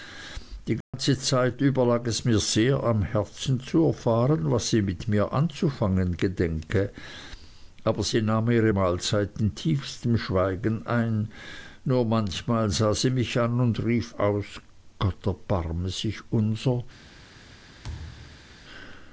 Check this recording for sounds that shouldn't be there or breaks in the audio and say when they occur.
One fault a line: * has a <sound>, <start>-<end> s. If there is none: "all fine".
* has a dropout, 0.8-0.9 s
* has a thud, 17.8-18.5 s